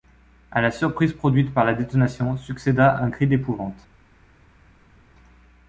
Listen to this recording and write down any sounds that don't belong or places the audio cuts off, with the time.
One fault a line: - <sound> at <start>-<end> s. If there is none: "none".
none